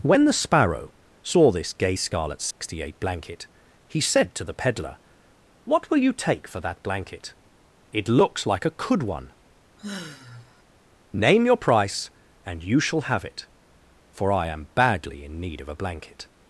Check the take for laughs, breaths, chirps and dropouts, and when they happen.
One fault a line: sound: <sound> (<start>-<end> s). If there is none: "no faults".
sound: dropout (2.5-2.6 s)
sound: sigh (9.8-10.6 s)